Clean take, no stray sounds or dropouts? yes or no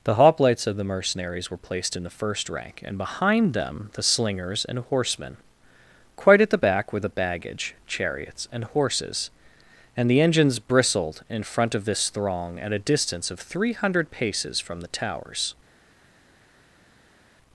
yes